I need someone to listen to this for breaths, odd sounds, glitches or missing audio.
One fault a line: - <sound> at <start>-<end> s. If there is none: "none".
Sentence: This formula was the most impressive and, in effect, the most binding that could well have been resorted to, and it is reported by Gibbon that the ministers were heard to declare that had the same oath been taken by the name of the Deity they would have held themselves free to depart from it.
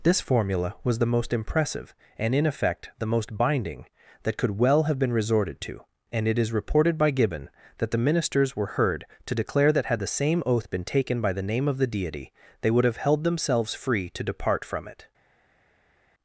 none